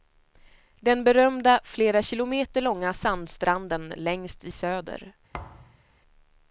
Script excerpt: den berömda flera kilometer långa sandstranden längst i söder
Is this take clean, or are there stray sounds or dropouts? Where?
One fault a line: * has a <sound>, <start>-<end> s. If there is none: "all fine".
* has a thud, 5.3-5.8 s